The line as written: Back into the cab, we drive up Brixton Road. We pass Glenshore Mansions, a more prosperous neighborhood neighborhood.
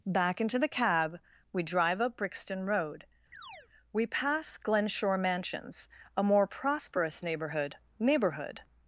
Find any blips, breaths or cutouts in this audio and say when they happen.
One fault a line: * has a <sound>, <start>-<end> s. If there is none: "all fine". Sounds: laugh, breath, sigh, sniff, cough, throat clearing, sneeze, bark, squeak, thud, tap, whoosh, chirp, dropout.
* has a chirp, 3.3-3.7 s